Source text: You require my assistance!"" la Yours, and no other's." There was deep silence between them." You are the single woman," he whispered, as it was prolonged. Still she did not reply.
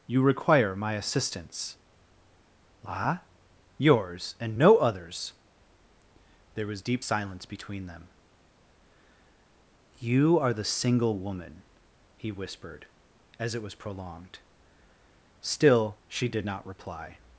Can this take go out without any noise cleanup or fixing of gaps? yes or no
yes